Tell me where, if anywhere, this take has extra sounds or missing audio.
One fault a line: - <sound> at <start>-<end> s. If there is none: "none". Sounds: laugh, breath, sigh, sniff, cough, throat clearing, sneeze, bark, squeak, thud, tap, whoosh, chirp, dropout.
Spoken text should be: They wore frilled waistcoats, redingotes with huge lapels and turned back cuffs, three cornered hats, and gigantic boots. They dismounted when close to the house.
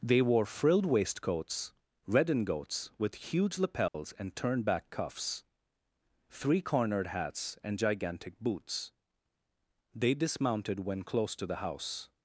- dropout at 3.9-3.9 s